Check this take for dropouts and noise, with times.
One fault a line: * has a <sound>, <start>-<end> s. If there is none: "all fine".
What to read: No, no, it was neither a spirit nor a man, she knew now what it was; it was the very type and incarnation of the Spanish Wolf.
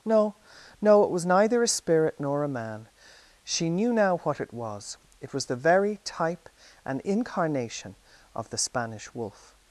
all fine